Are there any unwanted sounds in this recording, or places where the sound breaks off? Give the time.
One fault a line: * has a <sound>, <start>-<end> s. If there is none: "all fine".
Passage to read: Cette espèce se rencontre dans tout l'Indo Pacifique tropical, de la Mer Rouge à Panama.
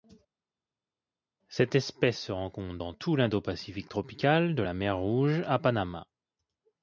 all fine